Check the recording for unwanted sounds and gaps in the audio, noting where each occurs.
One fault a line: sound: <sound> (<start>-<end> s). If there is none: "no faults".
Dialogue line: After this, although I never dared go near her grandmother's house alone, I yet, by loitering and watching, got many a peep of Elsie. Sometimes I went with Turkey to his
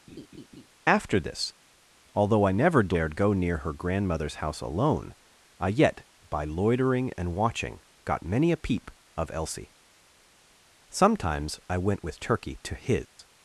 sound: laugh (0.1-0.7 s)
sound: dropout (13.1-13.2 s)